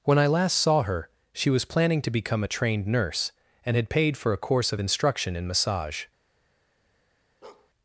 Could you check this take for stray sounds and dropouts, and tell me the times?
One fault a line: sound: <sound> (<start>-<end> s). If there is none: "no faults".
sound: bark (7.4-7.7 s)